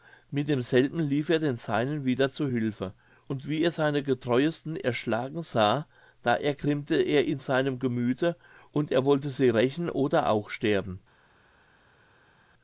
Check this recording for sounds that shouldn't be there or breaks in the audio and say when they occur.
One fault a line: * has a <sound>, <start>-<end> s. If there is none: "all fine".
all fine